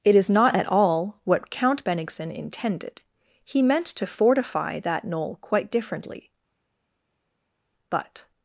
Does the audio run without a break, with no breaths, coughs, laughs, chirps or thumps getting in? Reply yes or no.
yes